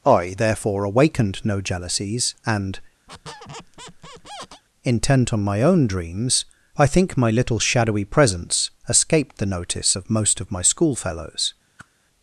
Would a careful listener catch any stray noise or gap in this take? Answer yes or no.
yes